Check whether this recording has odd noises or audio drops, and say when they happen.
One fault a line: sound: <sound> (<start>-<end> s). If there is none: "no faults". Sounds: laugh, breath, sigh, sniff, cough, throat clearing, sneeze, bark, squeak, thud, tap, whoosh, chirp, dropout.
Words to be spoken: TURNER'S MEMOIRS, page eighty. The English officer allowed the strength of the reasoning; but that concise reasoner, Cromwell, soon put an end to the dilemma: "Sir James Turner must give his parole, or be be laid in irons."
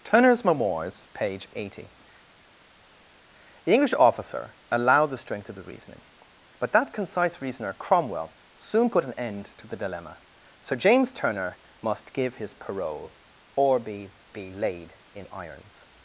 no faults